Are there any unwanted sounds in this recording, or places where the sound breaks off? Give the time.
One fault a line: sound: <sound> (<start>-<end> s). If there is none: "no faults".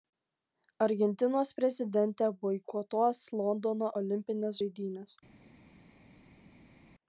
no faults